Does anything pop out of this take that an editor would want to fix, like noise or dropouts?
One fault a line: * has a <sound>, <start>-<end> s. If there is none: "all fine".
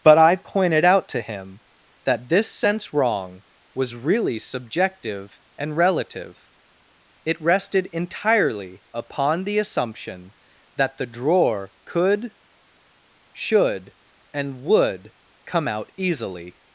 all fine